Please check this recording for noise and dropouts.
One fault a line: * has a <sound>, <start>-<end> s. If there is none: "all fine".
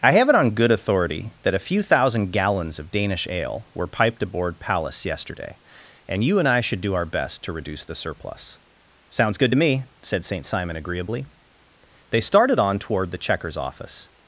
all fine